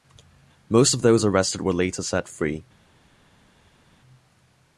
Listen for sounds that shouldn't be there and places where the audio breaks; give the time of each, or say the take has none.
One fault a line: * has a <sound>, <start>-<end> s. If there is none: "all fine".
all fine